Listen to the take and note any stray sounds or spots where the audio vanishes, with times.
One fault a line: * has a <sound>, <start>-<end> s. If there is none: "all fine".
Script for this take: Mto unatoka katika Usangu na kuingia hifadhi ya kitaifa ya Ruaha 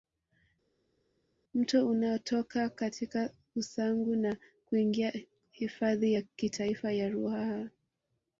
all fine